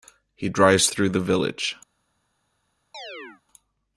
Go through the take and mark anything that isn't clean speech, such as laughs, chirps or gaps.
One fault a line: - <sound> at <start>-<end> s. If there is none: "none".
- chirp at 2.9-3.4 s